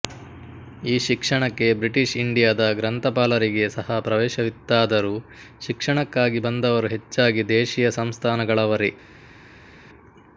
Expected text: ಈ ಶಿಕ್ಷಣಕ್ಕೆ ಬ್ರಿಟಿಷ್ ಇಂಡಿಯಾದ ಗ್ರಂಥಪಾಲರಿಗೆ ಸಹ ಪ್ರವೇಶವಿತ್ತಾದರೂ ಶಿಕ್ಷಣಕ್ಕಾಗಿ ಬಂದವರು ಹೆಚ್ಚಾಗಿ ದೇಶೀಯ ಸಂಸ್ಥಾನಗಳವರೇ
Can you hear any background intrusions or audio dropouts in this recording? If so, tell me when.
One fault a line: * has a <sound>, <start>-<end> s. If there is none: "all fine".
all fine